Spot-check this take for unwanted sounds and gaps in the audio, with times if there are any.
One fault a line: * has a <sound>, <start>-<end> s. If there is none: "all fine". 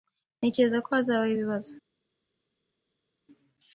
all fine